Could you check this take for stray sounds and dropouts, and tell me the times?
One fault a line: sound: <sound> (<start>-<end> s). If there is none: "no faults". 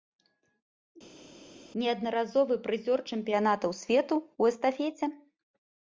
no faults